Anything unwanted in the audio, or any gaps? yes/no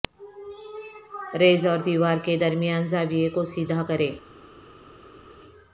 no